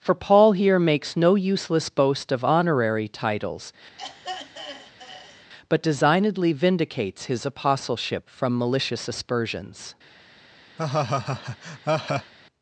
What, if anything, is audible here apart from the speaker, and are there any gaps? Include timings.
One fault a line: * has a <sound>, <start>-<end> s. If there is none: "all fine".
* has a throat clearing, 4.0-5.5 s
* has a laugh, 10.8-12.3 s